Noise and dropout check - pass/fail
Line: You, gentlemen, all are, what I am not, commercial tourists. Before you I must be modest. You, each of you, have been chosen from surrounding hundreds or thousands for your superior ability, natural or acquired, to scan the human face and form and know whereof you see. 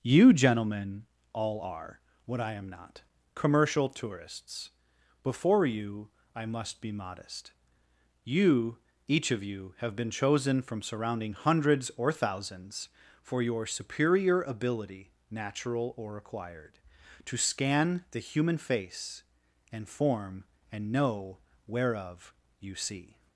pass